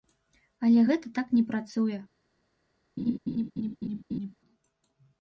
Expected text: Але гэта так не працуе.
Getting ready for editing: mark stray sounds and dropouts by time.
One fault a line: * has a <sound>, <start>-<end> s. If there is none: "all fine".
* has a laugh, 3.0-4.4 s